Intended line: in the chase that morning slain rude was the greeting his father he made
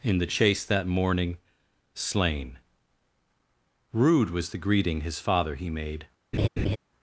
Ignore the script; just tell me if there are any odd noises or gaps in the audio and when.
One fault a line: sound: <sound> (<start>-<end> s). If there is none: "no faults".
sound: laugh (6.3-6.8 s)